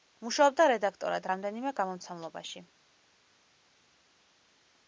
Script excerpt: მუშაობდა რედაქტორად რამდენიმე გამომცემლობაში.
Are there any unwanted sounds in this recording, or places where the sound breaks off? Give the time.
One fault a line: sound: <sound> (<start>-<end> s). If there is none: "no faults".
no faults